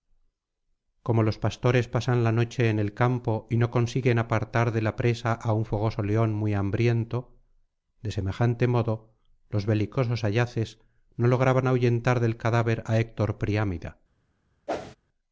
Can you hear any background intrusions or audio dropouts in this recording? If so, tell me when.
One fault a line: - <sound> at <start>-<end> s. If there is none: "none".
- whoosh at 14.7-15.0 s